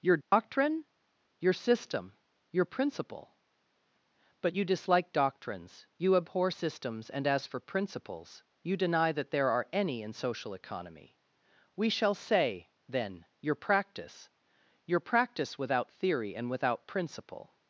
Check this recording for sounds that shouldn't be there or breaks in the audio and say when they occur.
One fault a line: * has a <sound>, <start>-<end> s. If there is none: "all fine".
* has a dropout, 0.2-0.3 s